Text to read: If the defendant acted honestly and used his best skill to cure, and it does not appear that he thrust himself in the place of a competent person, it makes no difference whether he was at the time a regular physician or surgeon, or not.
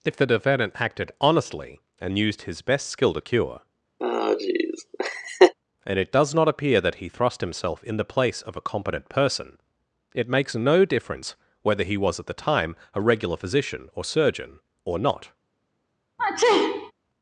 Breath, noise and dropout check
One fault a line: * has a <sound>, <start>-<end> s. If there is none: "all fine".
* has a laugh, 4.0-5.5 s
* has a sneeze, 16.2-16.9 s